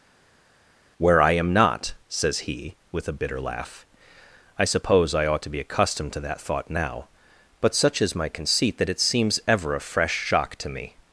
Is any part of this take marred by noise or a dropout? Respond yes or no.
no